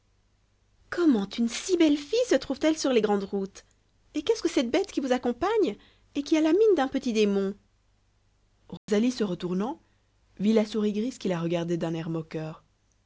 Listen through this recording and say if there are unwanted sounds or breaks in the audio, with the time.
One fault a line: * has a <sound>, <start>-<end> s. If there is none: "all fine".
* has a dropout, 8.8-8.9 s